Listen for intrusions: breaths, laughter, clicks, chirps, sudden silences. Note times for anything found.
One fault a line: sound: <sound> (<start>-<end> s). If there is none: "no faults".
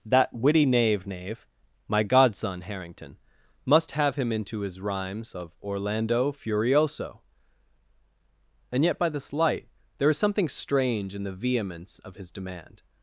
no faults